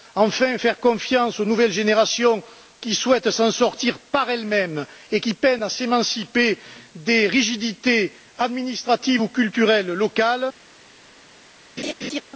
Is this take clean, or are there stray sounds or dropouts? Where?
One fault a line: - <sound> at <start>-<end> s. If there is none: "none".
- laugh at 11.8-12.2 s